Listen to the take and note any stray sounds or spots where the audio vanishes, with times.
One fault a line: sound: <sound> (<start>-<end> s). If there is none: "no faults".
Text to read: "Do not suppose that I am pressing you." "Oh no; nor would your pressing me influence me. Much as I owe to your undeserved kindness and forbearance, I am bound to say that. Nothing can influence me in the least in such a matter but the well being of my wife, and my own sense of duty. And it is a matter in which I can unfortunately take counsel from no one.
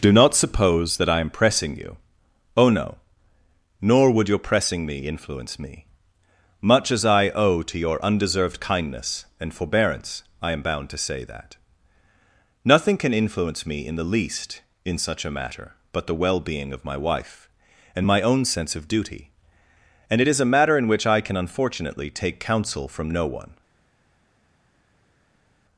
no faults